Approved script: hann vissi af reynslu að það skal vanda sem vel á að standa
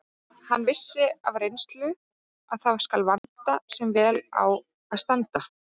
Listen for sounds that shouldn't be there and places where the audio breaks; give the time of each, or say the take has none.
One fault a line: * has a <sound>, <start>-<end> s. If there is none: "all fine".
* has a dropout, 3.2-3.2 s